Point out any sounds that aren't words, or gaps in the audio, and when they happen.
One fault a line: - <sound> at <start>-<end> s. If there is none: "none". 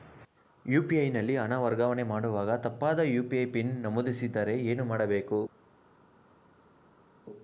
none